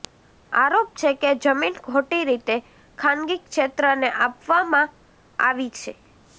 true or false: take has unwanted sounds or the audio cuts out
false